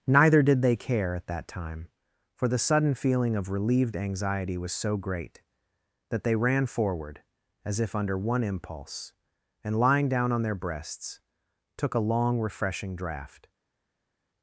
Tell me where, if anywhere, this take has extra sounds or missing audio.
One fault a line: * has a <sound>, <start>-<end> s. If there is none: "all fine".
all fine